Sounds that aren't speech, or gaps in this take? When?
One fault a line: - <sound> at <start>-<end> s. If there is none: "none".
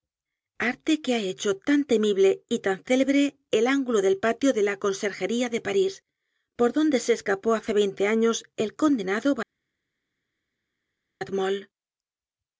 none